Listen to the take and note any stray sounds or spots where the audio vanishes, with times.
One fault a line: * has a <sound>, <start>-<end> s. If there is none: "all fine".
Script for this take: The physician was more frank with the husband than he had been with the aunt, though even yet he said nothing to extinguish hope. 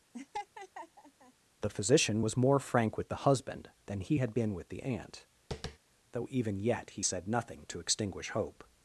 * has a laugh, 0.1-1.3 s
* has a tap, 5.5-5.8 s